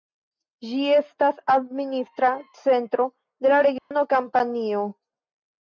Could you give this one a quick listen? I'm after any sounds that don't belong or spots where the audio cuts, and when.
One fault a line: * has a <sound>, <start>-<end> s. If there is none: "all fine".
* has a dropout, 3.8-3.9 s